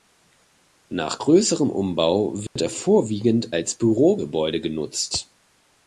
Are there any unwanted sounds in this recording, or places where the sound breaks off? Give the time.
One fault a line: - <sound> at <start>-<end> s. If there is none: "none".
- dropout at 2.5-2.6 s